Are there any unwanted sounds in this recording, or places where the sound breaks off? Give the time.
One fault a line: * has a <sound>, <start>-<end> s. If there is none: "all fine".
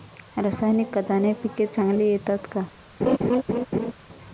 * has a laugh, 3.0-3.9 s